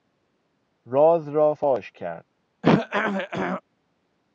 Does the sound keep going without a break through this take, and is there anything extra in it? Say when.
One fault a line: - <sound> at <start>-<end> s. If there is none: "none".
- throat clearing at 2.6-3.6 s